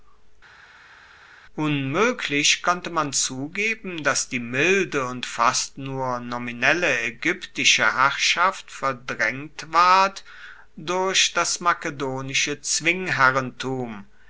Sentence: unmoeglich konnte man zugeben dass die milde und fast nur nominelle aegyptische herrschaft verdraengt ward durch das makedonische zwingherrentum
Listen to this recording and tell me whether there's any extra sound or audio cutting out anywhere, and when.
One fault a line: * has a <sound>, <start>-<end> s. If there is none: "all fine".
all fine